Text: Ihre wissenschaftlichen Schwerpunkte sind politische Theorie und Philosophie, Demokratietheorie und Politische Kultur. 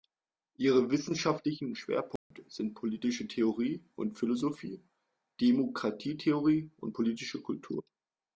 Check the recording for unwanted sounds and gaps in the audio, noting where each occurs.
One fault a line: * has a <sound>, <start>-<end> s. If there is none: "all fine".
* has a dropout, 2.2-2.3 s